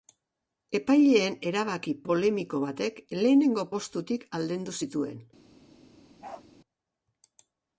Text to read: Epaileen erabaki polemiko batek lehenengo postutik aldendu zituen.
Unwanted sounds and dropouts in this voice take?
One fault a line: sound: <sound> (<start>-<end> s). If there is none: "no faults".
sound: bark (6.2-6.5 s)